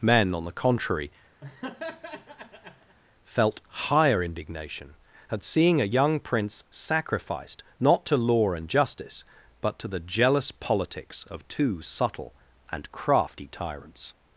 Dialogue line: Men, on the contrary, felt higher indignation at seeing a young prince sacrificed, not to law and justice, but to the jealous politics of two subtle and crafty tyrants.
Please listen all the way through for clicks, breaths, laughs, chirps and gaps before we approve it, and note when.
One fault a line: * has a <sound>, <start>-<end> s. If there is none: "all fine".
* has a laugh, 1.4-3.0 s